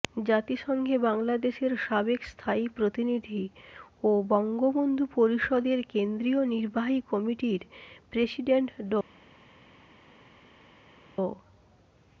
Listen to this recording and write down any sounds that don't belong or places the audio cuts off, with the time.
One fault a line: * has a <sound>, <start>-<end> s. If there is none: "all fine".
all fine